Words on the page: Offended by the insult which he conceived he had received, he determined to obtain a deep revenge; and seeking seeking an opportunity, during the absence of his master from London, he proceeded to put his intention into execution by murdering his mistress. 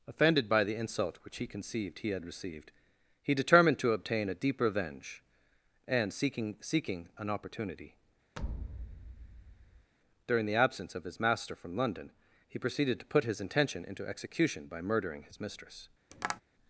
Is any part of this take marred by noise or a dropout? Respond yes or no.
yes